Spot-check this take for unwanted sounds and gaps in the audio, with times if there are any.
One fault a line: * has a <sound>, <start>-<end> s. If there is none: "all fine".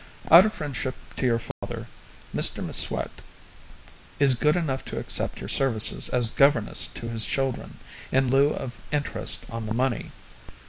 * has a dropout, 1.5-1.6 s